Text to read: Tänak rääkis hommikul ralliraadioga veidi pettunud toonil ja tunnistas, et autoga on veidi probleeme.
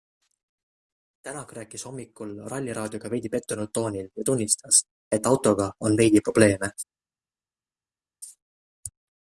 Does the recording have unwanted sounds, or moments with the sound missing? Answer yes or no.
no